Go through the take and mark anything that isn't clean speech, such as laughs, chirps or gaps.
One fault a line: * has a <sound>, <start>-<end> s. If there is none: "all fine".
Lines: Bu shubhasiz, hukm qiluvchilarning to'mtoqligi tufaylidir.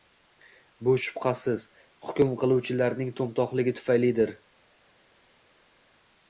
all fine